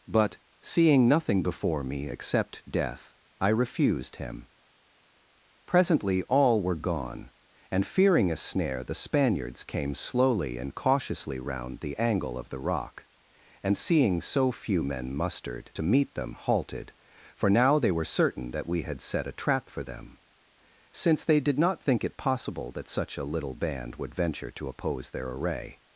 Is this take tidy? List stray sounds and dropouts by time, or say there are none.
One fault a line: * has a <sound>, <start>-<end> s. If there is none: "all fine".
all fine